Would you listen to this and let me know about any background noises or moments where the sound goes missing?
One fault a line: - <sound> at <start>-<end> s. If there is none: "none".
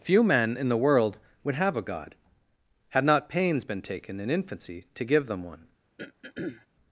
- throat clearing at 6.0-6.7 s